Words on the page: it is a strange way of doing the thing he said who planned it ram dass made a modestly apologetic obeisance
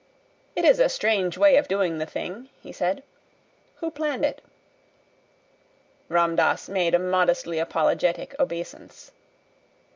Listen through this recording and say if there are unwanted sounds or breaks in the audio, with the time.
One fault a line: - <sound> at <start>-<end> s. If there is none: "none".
none